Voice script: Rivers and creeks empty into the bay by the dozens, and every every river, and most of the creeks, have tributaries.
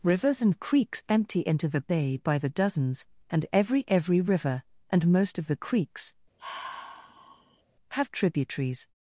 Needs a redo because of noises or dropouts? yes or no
yes